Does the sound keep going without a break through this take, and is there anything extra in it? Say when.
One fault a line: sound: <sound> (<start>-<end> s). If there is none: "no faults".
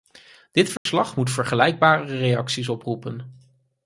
sound: dropout (0.8-0.9 s)